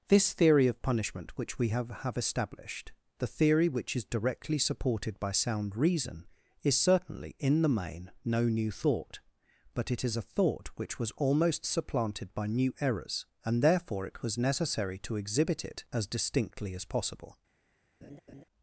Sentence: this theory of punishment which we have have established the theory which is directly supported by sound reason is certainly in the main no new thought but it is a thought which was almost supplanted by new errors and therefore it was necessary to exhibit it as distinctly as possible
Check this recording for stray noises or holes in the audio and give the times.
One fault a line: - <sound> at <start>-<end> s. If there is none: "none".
- laugh at 18.0-18.4 s